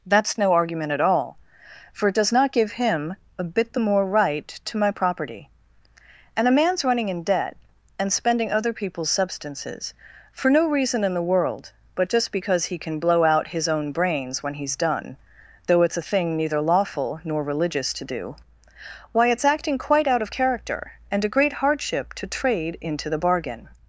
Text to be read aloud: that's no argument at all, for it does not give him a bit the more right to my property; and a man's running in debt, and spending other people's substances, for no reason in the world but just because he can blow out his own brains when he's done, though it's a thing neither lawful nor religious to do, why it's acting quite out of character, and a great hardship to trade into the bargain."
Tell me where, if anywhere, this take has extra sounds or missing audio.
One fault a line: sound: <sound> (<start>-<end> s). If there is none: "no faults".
no faults